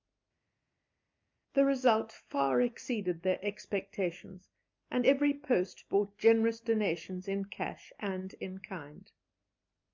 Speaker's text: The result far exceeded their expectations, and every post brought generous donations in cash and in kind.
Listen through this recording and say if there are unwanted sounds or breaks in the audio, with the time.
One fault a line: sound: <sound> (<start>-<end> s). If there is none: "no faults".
no faults